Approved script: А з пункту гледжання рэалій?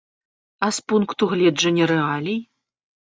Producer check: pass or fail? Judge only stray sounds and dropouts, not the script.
pass